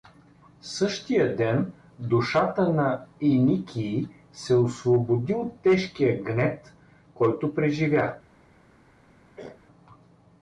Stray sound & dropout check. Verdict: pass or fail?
fail